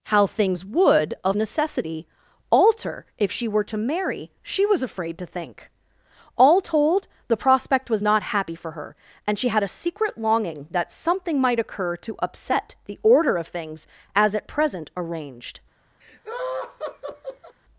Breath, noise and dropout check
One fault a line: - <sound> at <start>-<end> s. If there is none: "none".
- laugh at 16.0-17.6 s